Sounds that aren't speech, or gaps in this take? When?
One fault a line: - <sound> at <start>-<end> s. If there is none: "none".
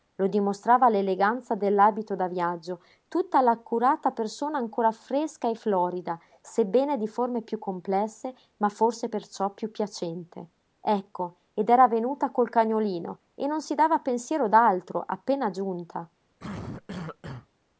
- cough at 16.4-17.5 s